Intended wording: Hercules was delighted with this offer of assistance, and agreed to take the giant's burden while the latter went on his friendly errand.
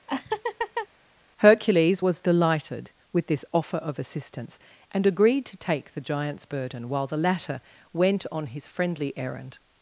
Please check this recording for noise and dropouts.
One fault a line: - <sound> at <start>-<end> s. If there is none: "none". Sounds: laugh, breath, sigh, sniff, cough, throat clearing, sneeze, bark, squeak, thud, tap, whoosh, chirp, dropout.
- laugh at 0.1-0.9 s